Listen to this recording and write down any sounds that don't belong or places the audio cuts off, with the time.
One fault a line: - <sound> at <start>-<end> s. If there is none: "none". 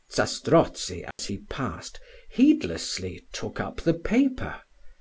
- dropout at 1.1-1.2 s